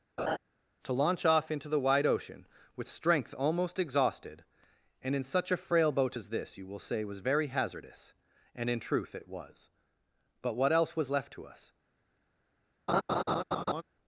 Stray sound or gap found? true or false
true